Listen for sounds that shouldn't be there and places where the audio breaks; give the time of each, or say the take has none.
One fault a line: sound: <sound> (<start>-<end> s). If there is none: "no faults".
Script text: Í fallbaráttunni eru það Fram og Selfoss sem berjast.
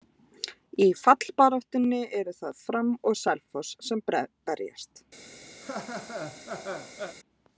sound: laugh (5.6-7.2 s)